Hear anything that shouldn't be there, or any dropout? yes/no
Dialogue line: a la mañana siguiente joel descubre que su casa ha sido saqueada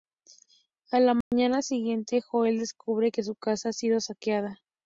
yes